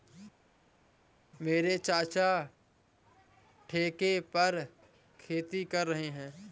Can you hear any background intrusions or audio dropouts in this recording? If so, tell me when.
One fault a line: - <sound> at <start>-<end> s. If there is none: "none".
none